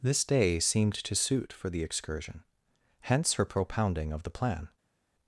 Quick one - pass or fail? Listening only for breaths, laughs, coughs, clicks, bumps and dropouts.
pass